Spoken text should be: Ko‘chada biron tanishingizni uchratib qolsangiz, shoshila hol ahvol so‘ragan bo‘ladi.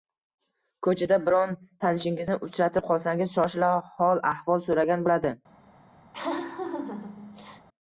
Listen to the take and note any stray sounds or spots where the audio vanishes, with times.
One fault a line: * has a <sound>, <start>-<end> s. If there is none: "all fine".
* has a laugh, 6.1-7.7 s